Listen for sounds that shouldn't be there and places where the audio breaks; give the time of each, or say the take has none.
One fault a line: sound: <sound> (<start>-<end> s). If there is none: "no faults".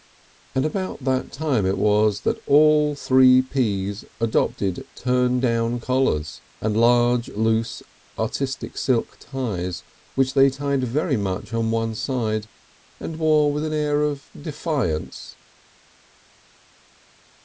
no faults